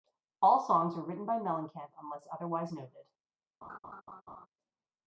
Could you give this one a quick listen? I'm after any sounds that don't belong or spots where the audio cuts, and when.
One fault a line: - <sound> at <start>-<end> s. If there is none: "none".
- laugh at 3.6-4.5 s